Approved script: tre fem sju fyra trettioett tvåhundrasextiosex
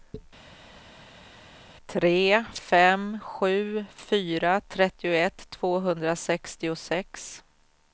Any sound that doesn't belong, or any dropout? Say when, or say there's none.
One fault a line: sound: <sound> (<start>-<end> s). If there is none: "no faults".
no faults